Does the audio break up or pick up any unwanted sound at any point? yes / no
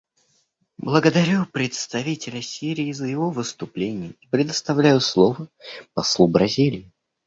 no